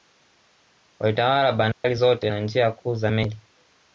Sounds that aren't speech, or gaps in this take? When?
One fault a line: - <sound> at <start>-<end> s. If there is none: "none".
- dropout at 1.7-1.8 s